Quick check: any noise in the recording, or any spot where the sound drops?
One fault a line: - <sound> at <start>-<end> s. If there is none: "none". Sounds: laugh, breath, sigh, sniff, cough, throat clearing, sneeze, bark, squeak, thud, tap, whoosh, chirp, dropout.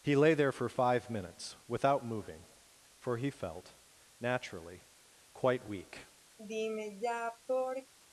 - sigh at 6.4-7.9 s